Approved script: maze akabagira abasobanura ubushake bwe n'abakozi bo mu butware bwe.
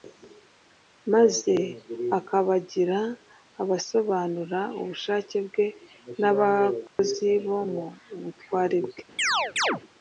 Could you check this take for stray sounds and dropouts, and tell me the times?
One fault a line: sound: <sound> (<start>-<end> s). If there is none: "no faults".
sound: dropout (6.9-7.0 s)
sound: chirp (9.2-9.8 s)